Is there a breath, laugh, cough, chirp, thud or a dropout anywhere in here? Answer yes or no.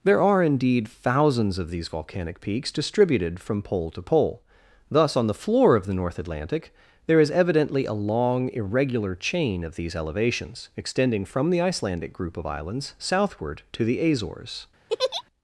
yes